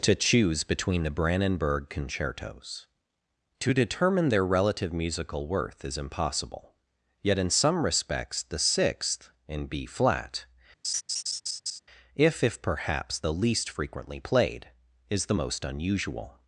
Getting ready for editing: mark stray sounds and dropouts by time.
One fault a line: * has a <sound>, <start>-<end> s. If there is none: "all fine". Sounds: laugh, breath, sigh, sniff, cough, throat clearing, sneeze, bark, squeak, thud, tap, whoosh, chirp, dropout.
* has a laugh, 10.8-11.8 s